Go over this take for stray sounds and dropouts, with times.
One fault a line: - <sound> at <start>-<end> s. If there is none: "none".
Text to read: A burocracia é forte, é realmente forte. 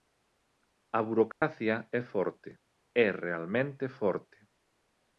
- dropout at 1.3-1.4 s